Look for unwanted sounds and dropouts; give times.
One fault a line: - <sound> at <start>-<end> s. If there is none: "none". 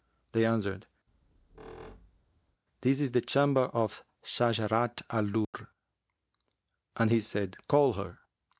- squeak at 1.1-2.6 s
- dropout at 5.4-5.5 s